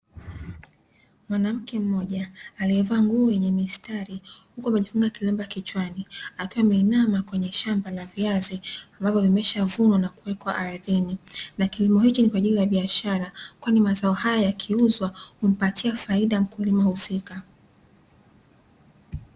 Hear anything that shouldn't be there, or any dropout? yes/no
no